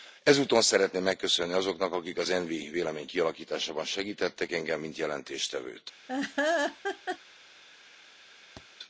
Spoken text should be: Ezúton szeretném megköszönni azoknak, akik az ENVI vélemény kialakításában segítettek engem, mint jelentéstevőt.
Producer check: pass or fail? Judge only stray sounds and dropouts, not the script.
fail